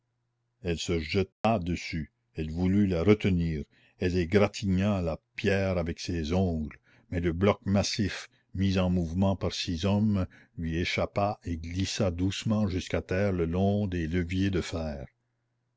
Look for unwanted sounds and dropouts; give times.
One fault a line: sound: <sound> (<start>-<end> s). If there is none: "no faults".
sound: dropout (1.3-1.4 s)